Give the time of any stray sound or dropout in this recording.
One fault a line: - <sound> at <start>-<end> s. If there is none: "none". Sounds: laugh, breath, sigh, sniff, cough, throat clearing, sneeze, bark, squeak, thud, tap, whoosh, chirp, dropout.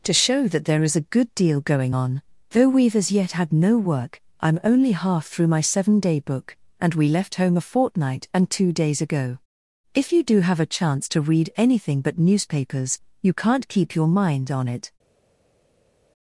none